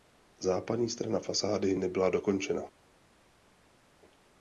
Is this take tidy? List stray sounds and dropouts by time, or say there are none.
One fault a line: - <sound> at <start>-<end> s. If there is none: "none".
none